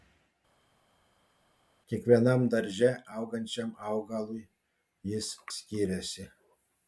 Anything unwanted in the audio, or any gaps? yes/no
no